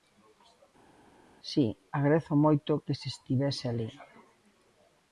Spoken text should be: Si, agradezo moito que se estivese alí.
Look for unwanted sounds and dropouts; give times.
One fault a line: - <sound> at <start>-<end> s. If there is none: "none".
none